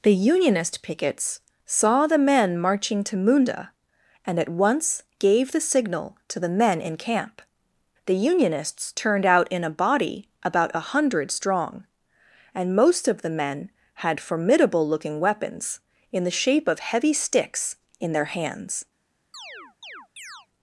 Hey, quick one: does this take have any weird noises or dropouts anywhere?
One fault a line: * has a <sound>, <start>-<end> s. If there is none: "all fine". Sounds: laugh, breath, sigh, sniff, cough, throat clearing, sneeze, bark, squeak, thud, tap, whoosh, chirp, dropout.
* has a chirp, 19.3-20.5 s